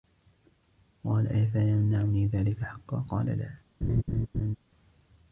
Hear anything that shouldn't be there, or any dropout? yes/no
yes